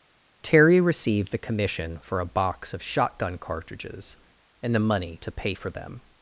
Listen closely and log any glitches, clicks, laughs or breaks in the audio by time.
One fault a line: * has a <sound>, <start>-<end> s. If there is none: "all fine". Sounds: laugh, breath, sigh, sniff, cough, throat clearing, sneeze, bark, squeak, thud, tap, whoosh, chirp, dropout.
all fine